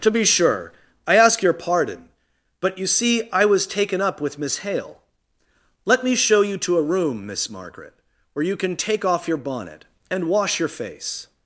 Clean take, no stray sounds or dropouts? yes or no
yes